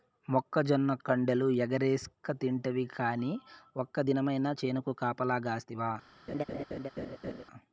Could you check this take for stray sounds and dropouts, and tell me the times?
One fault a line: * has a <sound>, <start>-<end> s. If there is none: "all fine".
* has a laugh, 6.3-7.4 s